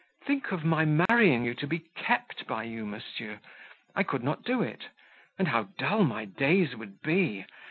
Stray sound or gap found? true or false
true